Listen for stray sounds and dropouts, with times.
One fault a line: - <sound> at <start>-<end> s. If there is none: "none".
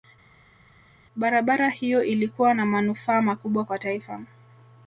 none